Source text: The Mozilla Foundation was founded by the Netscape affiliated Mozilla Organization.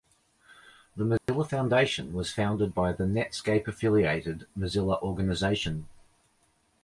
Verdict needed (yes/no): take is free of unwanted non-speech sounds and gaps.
no